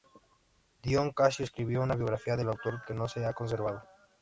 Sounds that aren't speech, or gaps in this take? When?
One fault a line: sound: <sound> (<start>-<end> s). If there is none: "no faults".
no faults